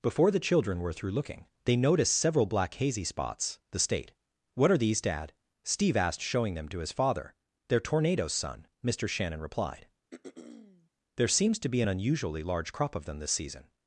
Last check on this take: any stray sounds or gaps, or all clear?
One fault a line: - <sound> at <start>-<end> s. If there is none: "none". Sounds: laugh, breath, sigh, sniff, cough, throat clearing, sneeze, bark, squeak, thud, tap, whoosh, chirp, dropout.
- throat clearing at 10.1-10.9 s